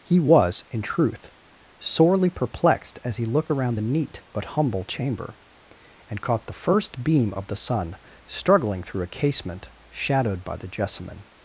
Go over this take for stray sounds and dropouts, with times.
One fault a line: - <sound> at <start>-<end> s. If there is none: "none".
none